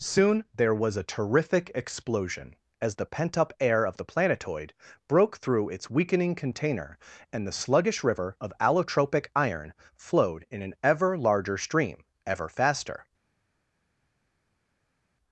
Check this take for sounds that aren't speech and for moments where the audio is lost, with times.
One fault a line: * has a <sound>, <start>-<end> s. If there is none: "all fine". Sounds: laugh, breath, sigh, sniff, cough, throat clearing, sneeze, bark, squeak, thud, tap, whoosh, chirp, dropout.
all fine